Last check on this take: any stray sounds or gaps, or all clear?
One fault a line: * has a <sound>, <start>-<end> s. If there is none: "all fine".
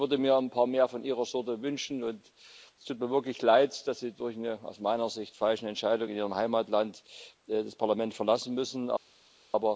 all fine